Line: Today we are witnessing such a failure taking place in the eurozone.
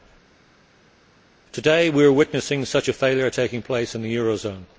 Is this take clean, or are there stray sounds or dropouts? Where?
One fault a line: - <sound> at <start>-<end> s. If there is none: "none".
none